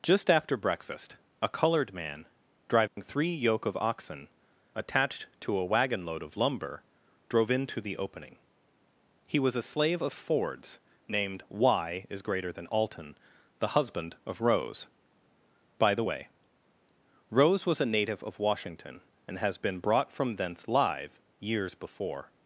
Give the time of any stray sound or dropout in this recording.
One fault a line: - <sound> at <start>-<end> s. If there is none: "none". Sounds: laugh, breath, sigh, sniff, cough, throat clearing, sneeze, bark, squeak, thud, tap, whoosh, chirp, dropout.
- dropout at 2.9-3.0 s